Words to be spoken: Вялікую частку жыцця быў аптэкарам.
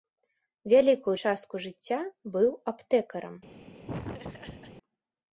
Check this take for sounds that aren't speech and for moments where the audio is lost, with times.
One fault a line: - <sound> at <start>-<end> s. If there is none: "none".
- laugh at 3.9-4.8 s